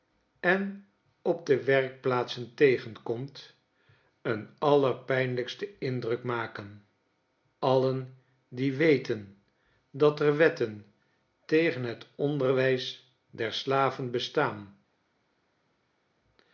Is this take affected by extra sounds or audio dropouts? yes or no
no